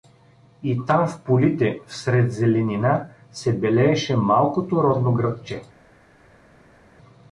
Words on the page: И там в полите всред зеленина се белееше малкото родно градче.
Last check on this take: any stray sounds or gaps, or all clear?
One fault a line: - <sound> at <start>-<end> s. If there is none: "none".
none